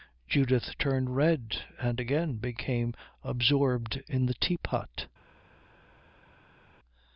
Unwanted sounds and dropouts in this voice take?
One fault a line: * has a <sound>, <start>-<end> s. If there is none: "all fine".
all fine